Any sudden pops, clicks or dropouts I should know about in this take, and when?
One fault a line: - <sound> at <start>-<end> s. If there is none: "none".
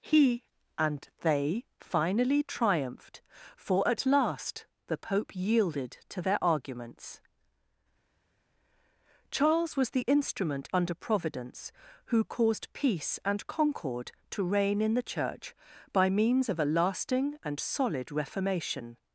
none